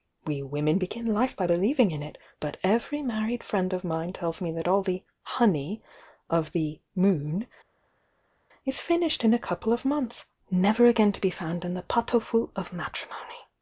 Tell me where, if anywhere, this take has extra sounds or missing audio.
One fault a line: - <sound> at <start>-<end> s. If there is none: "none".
none